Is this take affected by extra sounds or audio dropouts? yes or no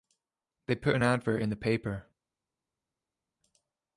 no